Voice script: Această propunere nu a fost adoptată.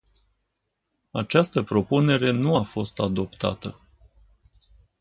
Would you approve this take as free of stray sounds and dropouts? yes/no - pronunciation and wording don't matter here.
yes